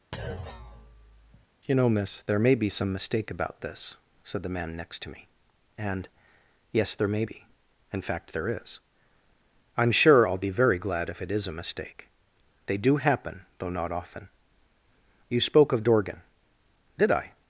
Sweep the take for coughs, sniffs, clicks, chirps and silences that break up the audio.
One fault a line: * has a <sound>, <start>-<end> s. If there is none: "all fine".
* has a thud, 0.1-1.5 s